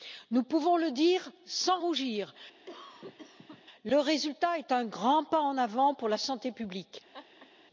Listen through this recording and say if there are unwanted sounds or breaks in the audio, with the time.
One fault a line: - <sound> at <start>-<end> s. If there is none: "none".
- cough at 2.7-3.6 s
- laugh at 7.1-7.5 s